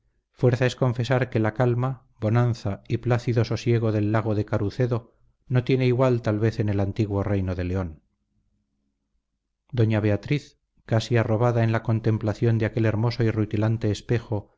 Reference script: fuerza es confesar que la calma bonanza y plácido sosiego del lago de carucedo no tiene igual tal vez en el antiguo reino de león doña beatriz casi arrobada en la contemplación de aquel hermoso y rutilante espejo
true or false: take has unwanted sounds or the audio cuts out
false